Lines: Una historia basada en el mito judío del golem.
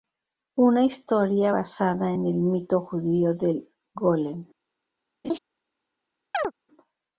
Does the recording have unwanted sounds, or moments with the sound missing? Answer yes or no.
yes